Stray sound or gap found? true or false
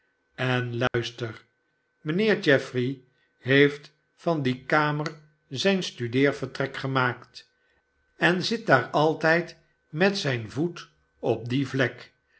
true